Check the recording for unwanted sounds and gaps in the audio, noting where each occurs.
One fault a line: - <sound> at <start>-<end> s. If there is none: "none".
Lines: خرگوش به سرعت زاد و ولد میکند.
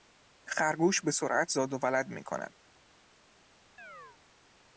- chirp at 3.8-4.2 s